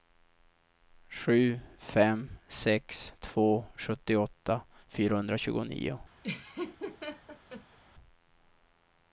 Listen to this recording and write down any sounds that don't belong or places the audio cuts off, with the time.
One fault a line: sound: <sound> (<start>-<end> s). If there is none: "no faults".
sound: laugh (6.2-7.8 s)